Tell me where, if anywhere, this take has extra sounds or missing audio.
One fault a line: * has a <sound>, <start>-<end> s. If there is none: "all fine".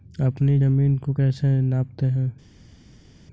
all fine